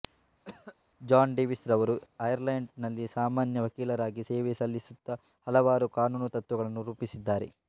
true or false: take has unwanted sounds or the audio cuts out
true